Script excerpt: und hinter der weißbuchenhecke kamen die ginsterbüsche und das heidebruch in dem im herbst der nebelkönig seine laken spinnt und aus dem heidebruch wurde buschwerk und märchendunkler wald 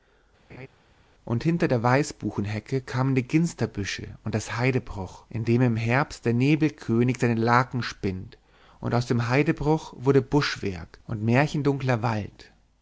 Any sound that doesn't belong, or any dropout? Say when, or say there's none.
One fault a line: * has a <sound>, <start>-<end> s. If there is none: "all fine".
* has a laugh, 0.5-0.7 s